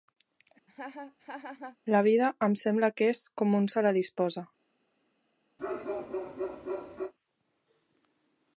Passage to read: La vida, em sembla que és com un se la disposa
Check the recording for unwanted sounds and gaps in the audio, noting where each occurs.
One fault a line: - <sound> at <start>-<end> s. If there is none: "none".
- laugh at 0.7-1.8 s
- bark at 5.6-7.1 s